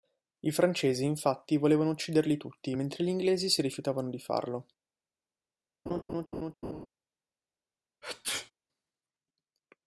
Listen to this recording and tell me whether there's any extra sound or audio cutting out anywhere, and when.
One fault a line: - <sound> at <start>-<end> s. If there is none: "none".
- laugh at 5.9-6.9 s
- sneeze at 8.0-8.5 s